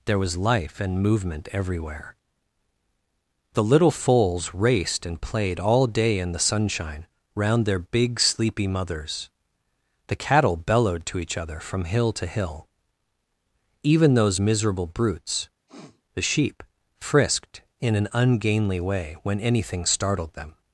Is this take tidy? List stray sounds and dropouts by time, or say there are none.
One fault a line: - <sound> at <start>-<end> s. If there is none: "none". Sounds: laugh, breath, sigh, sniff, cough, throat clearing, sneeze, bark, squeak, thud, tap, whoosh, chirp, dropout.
- sniff at 15.7-16.0 s